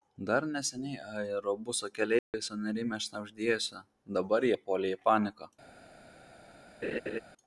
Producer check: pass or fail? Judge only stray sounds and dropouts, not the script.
fail